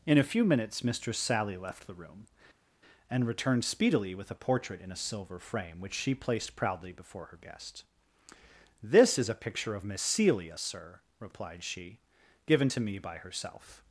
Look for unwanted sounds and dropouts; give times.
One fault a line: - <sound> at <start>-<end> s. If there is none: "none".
none